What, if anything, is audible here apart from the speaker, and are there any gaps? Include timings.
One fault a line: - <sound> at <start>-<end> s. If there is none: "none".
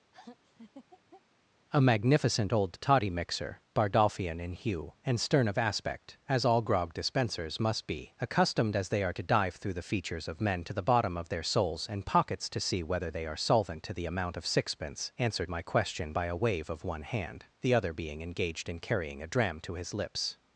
- laugh at 0.1-1.2 s